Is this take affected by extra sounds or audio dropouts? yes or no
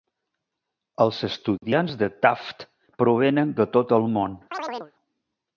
yes